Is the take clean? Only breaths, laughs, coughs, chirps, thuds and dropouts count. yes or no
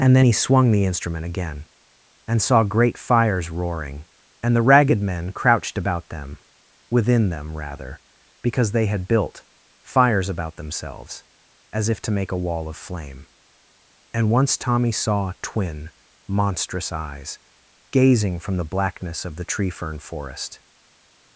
yes